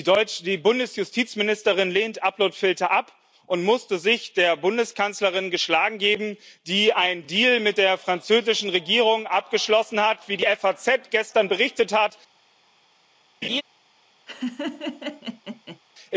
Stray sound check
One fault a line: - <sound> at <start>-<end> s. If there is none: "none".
- laugh at 13.4-13.6 s
- laugh at 14.3-15.8 s